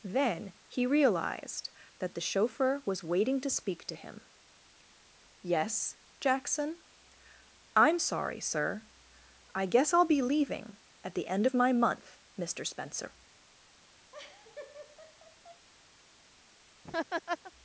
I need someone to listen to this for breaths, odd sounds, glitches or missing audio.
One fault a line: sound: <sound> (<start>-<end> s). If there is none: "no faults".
sound: laugh (14.1-15.7 s)
sound: laugh (16.8-17.5 s)